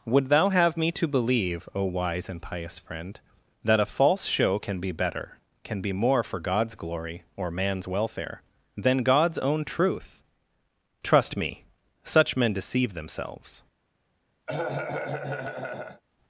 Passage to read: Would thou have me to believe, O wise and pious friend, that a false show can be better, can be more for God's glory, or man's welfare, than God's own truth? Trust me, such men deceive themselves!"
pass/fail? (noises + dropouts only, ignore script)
fail